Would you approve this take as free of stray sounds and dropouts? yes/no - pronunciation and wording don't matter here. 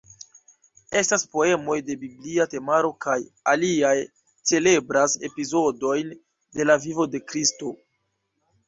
yes